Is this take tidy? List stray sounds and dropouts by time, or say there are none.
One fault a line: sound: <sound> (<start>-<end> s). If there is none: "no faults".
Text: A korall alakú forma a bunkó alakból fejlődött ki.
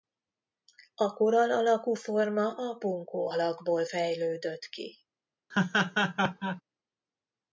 sound: laugh (5.5-6.6 s)